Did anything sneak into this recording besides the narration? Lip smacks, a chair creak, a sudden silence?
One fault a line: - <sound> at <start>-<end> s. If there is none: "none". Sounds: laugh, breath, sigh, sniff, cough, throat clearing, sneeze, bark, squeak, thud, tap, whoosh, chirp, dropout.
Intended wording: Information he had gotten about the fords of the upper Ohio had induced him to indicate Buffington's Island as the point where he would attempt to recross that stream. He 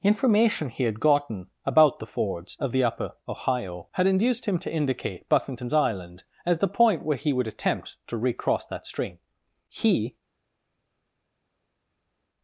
none